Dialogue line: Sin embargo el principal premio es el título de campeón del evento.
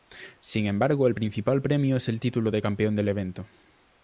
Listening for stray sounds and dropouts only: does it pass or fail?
pass